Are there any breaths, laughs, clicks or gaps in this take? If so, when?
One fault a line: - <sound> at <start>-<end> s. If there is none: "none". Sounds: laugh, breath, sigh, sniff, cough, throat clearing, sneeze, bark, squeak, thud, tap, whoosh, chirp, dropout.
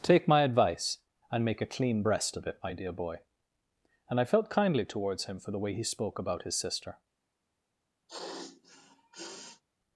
- sniff at 8.1-9.6 s